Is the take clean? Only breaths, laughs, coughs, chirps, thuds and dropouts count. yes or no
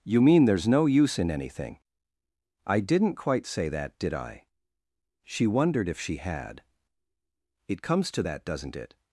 yes